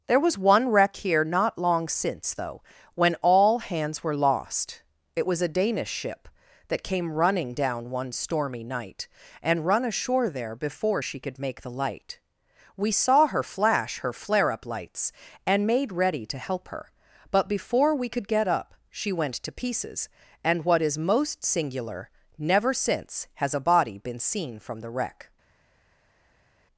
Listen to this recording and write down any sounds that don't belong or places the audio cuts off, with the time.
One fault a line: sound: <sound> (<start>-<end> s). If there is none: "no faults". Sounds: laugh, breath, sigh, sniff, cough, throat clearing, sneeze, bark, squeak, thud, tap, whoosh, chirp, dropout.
no faults